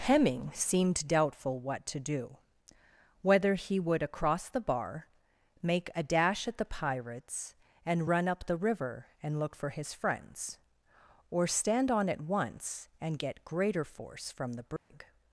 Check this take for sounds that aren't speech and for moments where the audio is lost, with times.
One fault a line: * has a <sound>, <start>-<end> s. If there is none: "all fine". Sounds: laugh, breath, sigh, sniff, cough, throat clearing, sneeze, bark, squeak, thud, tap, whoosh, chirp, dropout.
* has a dropout, 14.8-14.9 s